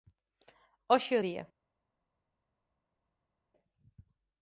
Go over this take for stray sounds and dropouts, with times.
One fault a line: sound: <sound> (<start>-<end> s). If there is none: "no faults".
no faults